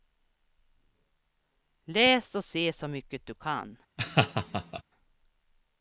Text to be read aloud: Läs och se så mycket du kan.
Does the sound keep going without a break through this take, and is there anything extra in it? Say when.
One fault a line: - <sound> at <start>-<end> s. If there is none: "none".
- laugh at 4.0-4.8 s